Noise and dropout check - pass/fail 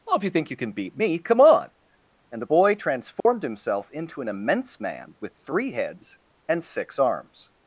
fail